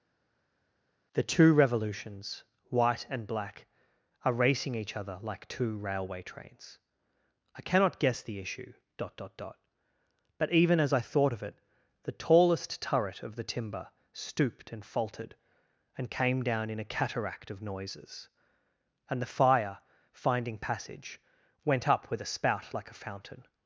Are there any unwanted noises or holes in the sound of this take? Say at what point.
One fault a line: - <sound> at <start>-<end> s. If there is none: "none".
none